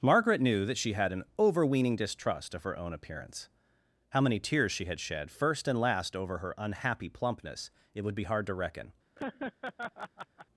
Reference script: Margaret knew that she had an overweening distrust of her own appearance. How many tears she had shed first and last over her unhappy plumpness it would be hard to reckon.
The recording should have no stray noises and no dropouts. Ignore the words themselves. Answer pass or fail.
fail